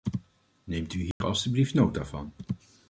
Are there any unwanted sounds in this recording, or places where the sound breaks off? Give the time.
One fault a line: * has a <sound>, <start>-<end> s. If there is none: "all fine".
* has a dropout, 1.1-1.2 s